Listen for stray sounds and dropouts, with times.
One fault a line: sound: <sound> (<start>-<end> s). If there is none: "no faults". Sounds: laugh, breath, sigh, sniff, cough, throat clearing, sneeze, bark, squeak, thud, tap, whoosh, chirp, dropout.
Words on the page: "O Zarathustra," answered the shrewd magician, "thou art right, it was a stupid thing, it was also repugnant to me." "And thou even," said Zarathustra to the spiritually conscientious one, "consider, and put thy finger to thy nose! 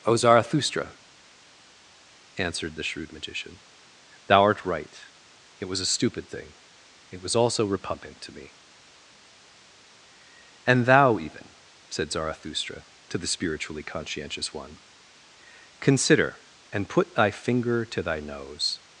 no faults